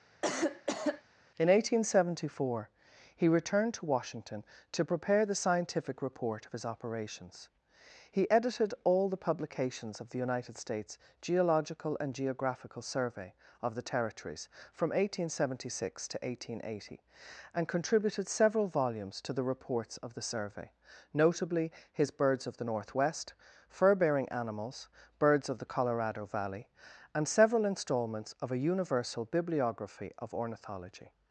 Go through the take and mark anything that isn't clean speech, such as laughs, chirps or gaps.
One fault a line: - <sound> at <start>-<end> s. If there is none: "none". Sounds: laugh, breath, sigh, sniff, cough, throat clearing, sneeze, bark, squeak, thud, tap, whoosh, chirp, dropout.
- cough at 0.2-1.0 s